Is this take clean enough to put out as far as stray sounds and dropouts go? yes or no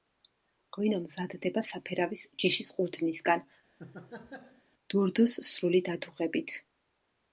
no